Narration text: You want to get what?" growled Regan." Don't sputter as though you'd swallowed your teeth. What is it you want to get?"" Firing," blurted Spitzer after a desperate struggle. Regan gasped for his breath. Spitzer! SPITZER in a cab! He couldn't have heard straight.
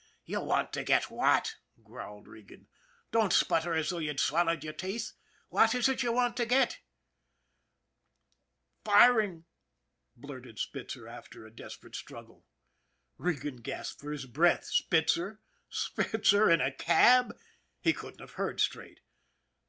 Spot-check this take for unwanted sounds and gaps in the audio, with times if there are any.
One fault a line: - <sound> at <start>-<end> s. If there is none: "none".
none